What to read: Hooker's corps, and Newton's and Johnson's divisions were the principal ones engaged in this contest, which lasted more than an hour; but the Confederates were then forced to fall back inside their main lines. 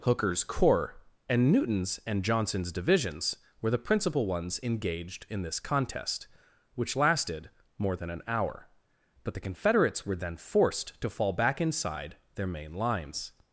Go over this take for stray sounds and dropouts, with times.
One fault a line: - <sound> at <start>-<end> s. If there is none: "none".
none